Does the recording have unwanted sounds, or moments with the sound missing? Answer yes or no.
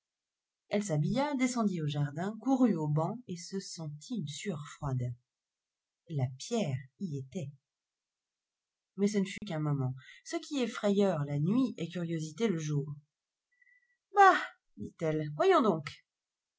yes